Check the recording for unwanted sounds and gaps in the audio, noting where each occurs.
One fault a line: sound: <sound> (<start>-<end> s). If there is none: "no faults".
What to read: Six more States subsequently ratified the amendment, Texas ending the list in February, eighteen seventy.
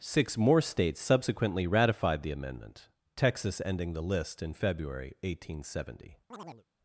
sound: chirp (6.3-6.6 s)